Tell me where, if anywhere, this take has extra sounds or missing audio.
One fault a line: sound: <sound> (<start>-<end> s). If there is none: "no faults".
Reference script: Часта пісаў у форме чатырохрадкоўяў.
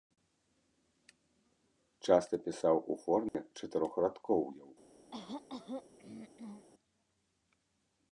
sound: dropout (3.3-3.3 s)
sound: throat clearing (5.1-6.7 s)